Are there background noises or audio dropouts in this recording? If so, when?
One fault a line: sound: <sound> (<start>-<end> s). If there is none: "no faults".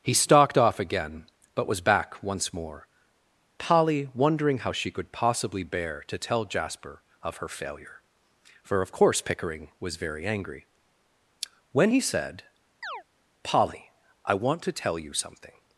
sound: chirp (12.8-13.0 s)